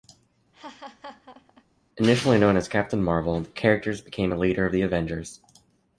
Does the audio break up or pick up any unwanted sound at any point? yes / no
yes